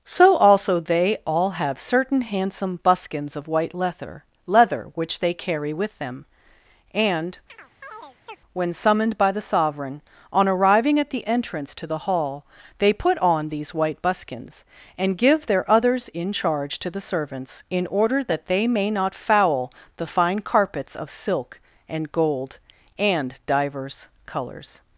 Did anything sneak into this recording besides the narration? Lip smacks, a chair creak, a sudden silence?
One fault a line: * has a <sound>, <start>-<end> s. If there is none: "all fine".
* has a chirp, 7.5-8.4 s